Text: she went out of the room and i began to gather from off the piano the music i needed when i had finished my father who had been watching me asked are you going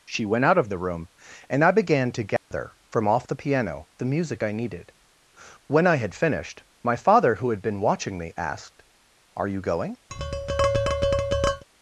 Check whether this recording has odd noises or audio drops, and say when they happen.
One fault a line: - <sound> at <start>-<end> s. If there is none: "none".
- dropout at 2.4-2.5 s
- tap at 10.1-11.6 s